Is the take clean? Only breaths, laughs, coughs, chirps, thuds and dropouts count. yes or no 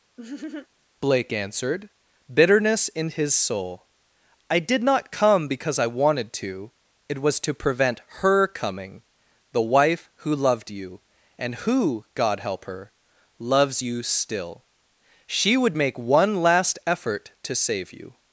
no